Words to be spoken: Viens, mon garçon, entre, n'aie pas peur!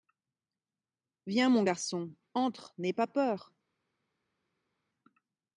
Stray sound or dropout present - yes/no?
no